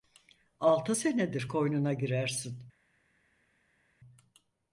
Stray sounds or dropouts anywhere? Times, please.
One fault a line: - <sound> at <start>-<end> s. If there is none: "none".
none